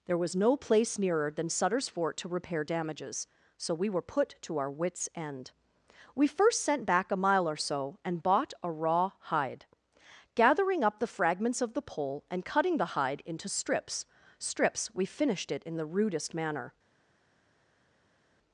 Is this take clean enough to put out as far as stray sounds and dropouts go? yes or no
yes